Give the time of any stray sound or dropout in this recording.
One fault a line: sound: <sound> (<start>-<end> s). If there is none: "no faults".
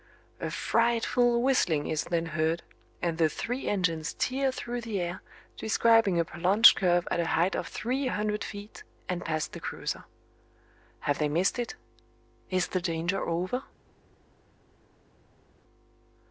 no faults